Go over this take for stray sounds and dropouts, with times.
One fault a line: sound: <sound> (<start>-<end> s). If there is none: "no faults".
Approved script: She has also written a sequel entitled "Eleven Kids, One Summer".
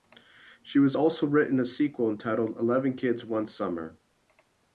no faults